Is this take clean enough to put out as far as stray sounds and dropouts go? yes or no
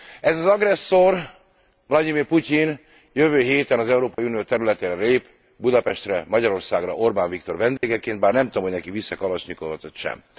no